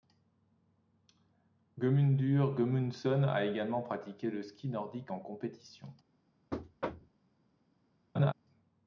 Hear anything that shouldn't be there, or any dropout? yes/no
yes